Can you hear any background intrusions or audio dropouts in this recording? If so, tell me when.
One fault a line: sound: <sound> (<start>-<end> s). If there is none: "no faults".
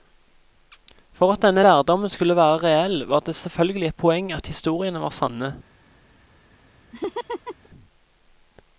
sound: laugh (6.9-7.7 s)